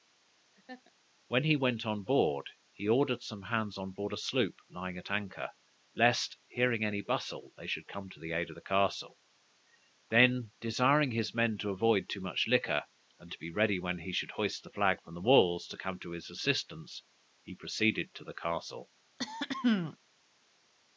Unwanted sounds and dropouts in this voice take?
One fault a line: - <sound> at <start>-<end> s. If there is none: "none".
- laugh at 0.5-0.9 s
- throat clearing at 19.2-20.0 s